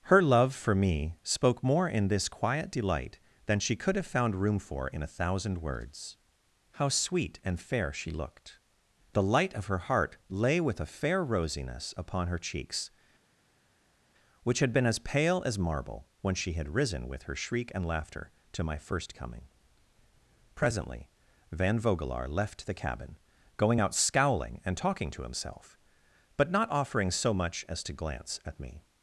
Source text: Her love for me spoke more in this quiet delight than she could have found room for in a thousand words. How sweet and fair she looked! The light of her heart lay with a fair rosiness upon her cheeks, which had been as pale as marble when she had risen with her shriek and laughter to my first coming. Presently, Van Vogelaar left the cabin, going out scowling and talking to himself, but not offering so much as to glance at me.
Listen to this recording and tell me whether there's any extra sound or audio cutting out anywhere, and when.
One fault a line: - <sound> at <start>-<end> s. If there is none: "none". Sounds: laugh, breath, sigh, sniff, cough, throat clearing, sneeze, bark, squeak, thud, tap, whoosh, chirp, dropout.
none